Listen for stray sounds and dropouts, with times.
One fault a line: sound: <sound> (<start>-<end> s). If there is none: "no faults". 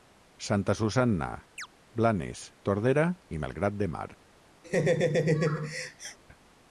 sound: chirp (1.6-1.7 s)
sound: laugh (4.6-6.2 s)